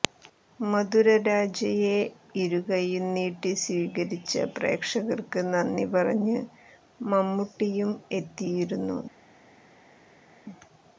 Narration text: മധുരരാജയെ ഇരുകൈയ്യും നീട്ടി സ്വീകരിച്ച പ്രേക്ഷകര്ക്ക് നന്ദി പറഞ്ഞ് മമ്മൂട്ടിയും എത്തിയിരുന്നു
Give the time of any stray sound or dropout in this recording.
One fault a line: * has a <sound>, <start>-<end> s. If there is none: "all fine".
all fine